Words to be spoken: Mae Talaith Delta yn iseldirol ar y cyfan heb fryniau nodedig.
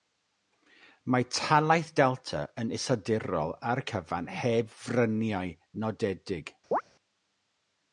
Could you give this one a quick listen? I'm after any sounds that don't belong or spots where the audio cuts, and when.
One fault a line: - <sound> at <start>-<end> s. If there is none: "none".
- chirp at 6.7-6.8 s